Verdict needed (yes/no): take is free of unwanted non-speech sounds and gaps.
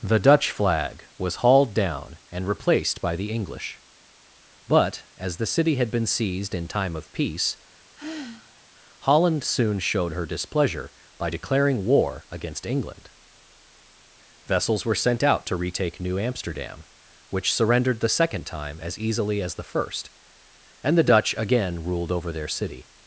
no